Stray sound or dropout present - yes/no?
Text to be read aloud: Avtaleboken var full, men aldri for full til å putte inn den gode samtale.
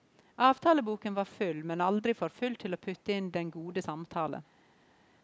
no